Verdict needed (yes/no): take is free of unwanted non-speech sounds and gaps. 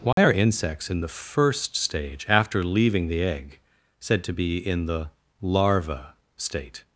no